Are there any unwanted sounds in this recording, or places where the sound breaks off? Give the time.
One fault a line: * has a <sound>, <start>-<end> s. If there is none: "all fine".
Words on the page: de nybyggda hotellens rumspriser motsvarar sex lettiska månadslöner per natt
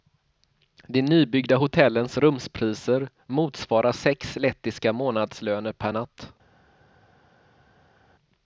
all fine